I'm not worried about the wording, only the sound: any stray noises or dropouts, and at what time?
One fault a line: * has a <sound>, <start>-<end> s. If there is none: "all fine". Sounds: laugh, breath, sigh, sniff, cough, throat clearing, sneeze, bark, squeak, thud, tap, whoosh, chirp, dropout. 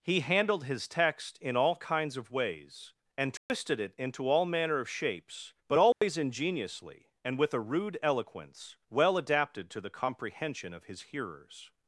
* has a dropout, 3.4-3.5 s
* has a dropout, 5.9-6.0 s